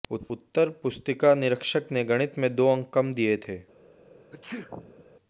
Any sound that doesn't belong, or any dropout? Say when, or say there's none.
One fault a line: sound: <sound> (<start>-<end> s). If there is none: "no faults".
sound: sneeze (4.3-5.0 s)